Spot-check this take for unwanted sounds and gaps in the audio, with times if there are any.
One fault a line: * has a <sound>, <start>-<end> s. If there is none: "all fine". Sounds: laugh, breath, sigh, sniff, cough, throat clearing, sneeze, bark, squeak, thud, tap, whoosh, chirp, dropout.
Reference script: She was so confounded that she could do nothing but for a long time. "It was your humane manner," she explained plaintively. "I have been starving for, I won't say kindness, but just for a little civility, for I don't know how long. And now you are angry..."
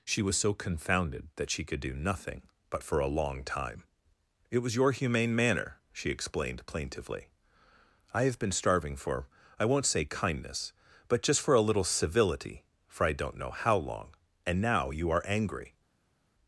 all fine